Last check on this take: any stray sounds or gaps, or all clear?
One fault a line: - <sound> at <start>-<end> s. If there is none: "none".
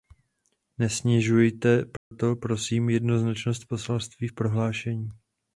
- dropout at 2.0-2.1 s